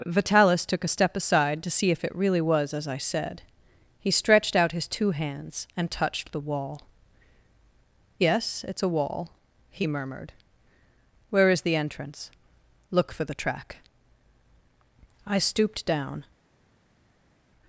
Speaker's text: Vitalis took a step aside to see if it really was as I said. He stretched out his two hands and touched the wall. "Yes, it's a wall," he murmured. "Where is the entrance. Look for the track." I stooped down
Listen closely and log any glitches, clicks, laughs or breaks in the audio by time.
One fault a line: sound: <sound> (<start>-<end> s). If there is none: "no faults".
no faults